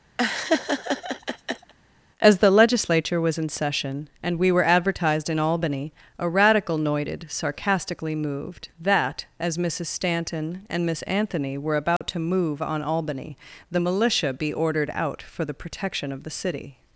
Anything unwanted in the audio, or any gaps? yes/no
yes